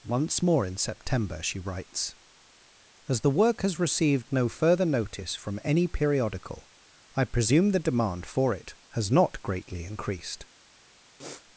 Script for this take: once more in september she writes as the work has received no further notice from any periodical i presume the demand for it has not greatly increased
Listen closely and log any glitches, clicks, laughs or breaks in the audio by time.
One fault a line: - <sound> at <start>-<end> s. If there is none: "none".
- sniff at 11.2-11.4 s